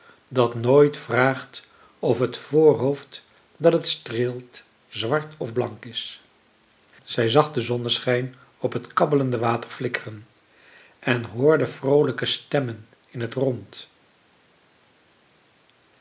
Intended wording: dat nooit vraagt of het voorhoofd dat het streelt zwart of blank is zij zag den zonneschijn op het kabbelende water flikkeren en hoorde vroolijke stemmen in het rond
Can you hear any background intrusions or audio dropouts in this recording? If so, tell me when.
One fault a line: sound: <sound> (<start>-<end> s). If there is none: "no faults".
no faults